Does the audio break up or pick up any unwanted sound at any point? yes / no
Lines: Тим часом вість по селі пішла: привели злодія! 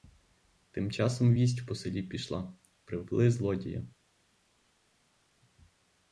no